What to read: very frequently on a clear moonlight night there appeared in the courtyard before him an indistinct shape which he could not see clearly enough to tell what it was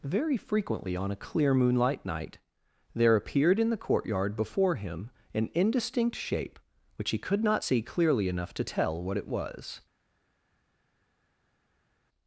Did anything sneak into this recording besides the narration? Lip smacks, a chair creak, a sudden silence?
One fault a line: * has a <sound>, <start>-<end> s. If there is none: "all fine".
all fine